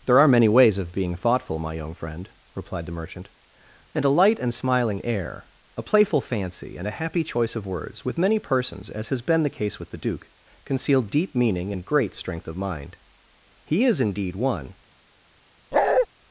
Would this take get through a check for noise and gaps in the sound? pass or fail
fail